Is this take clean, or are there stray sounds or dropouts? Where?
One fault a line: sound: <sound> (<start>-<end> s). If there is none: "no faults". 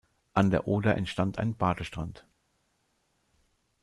no faults